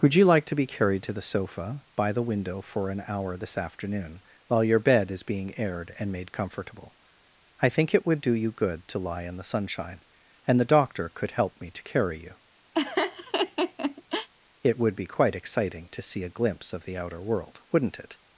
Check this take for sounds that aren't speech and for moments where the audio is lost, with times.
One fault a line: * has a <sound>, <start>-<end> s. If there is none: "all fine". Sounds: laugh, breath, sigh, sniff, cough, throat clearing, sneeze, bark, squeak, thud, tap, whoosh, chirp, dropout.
* has a laugh, 12.7-14.3 s